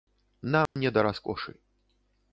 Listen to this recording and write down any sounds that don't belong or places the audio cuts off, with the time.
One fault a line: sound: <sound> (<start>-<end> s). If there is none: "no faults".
sound: dropout (0.7-0.8 s)